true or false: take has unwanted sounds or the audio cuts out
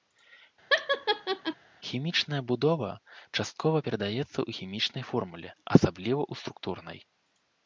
true